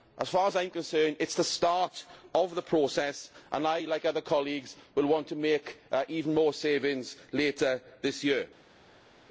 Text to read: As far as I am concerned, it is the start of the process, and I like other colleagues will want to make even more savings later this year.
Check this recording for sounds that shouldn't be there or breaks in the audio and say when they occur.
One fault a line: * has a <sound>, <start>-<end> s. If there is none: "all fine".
all fine